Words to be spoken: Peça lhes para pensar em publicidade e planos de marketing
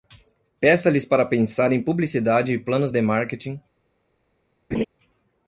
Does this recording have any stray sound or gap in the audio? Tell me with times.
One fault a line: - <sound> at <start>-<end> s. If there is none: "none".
- laugh at 4.7-4.8 s